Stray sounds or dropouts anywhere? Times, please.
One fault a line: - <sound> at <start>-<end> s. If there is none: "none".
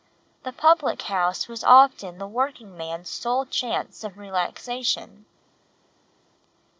none